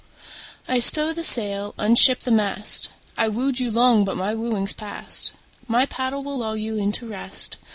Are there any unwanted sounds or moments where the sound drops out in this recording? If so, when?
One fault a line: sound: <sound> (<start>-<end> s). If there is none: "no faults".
no faults